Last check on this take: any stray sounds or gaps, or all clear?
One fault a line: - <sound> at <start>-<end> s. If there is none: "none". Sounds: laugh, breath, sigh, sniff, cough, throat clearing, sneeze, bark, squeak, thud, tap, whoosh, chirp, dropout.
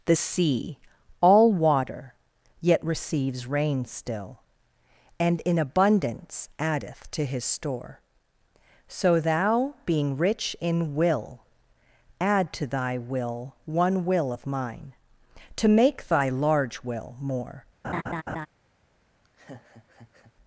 - laugh at 17.8-18.5 s
- laugh at 19.2-20.3 s